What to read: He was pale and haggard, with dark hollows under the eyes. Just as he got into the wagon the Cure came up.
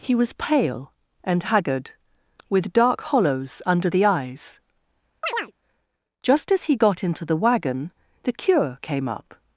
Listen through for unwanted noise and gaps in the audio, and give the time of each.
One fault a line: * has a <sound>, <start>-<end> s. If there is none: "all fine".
* has a chirp, 5.2-5.5 s